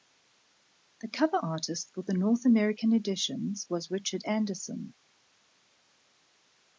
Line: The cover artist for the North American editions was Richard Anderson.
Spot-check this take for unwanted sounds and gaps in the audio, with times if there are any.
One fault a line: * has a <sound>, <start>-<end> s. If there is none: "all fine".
all fine